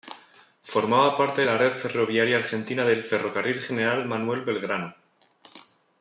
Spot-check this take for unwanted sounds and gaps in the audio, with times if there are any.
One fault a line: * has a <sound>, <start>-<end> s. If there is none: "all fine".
all fine